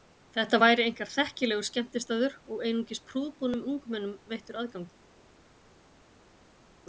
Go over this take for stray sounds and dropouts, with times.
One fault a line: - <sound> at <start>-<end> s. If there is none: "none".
none